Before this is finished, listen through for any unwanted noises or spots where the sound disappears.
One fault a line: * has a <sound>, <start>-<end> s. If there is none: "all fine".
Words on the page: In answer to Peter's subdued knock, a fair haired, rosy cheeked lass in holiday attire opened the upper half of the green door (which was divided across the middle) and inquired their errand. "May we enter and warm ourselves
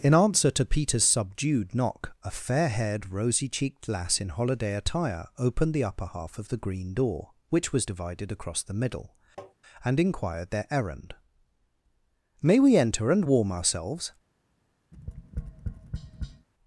* has a tap, 9.4-9.5 s
* has a tap, 14.9-16.5 s